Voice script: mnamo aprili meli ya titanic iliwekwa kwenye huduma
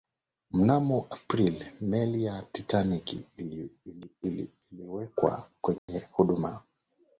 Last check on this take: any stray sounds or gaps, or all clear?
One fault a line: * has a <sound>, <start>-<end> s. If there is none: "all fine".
* has a dropout, 5.8-5.9 s